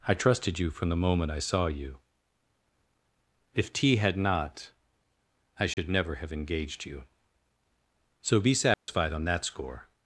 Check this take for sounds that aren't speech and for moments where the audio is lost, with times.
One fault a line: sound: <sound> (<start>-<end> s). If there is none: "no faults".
sound: dropout (5.7-5.8 s)
sound: dropout (8.7-8.9 s)